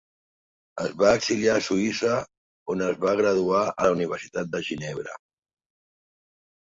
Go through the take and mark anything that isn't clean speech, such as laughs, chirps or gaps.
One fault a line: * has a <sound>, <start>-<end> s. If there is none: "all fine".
all fine